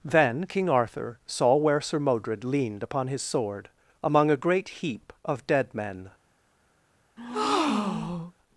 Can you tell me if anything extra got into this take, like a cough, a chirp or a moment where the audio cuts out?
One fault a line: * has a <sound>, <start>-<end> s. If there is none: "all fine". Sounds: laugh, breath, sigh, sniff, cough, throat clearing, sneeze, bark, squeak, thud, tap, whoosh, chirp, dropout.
* has a breath, 7.2-8.3 s